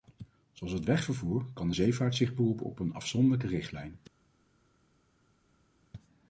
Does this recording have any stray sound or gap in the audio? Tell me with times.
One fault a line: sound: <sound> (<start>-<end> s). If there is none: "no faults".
no faults